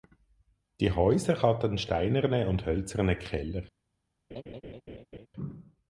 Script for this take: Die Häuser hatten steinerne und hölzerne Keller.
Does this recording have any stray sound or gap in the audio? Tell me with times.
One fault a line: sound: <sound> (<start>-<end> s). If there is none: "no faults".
sound: laugh (4.3-5.3 s)